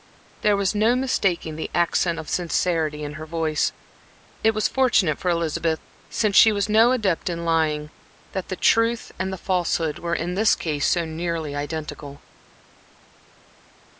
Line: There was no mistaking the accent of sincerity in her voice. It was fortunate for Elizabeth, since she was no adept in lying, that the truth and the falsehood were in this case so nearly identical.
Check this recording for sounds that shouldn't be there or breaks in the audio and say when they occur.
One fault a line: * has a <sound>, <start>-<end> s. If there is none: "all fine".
all fine